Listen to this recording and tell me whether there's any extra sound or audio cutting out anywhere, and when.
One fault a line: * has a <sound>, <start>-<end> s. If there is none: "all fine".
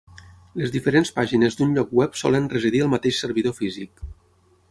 all fine